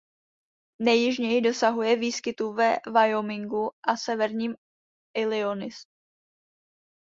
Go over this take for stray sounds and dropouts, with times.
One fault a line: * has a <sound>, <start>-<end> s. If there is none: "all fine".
all fine